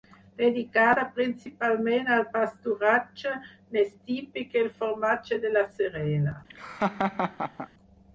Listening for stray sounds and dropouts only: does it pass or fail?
fail